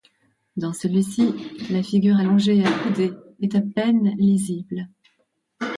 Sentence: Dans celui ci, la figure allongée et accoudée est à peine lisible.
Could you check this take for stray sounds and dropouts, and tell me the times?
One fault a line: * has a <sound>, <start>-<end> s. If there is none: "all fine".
all fine